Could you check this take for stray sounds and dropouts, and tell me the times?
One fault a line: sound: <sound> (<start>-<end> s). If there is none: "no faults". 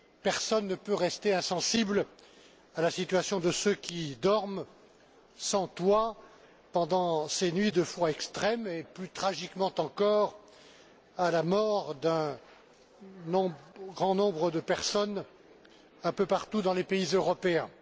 no faults